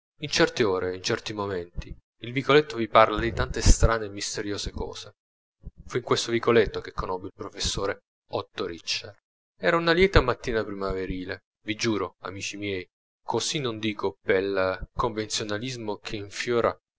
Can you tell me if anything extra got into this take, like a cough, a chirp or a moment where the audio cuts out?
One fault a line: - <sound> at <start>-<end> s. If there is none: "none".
none